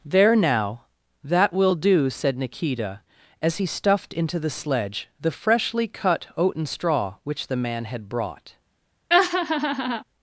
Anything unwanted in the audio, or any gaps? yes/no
yes